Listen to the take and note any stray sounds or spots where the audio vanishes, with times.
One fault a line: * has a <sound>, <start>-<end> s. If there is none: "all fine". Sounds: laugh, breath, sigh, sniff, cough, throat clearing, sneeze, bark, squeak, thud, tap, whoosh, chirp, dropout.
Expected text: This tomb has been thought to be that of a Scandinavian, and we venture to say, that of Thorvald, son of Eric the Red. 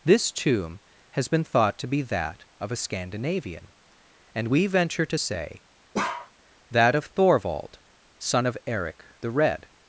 * has a bark, 5.9-6.3 s